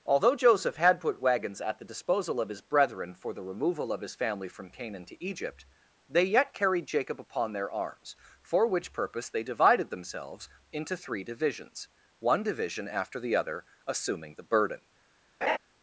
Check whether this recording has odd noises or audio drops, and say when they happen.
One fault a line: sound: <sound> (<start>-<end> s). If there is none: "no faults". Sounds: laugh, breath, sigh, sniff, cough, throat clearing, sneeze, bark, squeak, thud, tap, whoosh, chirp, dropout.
sound: laugh (15.4-15.6 s)